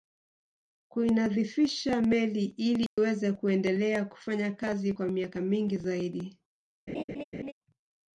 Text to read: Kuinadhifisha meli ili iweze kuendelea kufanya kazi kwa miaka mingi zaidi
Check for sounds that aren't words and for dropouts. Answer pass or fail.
fail